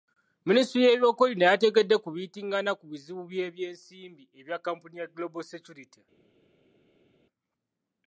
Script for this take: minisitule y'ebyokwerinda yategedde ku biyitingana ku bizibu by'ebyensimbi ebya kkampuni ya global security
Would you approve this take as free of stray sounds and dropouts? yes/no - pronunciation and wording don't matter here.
yes